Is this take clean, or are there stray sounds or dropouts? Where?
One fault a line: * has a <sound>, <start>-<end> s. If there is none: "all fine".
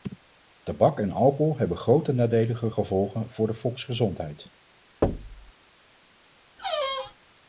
* has a thud, 5.0-5.5 s
* has a squeak, 6.6-7.2 s